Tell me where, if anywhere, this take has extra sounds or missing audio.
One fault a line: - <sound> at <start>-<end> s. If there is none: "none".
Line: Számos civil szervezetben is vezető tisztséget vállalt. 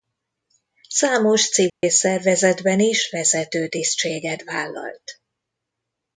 - dropout at 1.7-1.8 s